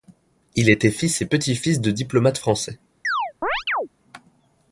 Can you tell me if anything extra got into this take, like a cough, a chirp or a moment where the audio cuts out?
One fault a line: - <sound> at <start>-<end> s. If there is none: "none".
- chirp at 3.0-3.9 s